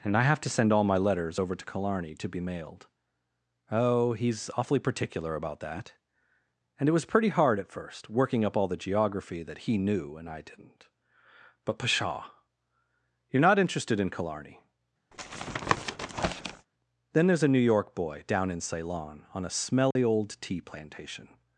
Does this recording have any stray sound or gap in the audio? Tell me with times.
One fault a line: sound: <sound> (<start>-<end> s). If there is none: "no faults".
sound: tap (15.1-16.7 s)
sound: dropout (19.9-20.0 s)